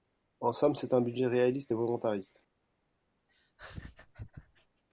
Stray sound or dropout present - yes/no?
yes